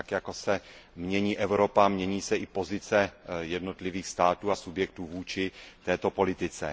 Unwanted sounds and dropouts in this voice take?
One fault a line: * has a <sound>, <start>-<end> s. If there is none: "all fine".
all fine